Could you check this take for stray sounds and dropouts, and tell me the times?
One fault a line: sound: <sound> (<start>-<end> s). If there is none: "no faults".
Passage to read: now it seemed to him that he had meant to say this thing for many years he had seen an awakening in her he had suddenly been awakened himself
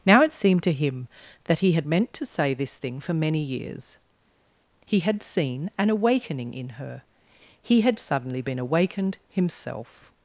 no faults